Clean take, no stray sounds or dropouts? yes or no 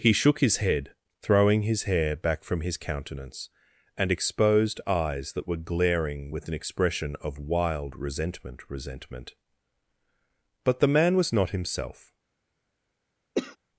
no